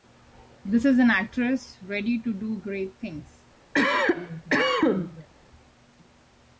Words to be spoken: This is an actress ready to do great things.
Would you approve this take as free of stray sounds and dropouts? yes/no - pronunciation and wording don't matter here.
no